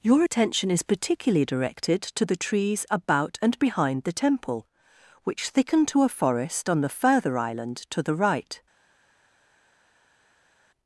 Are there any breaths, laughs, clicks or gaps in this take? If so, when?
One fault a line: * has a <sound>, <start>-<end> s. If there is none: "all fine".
all fine